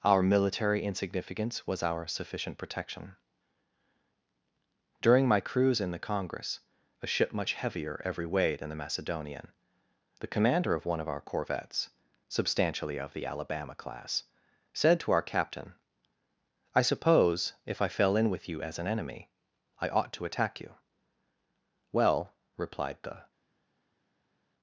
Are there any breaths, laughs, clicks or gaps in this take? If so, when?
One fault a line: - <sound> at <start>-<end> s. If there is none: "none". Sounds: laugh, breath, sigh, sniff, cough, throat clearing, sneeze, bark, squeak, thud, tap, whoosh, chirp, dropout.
none